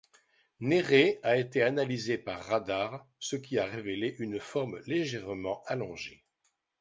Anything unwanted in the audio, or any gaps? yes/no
no